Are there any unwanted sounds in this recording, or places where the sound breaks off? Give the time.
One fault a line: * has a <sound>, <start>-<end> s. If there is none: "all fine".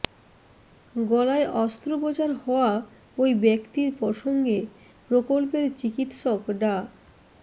all fine